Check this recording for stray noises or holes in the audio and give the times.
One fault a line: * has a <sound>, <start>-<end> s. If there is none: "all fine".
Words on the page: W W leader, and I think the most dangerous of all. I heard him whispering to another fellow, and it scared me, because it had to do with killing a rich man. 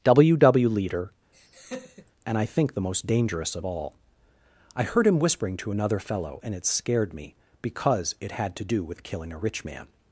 * has a laugh, 1.3-2.1 s